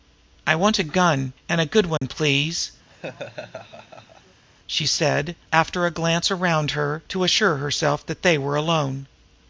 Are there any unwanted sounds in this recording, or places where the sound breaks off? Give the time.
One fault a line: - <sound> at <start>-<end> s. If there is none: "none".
- dropout at 2.0-2.0 s
- laugh at 2.9-4.4 s